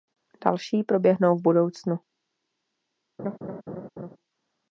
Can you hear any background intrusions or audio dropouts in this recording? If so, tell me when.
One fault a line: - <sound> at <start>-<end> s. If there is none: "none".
- laugh at 3.2-4.2 s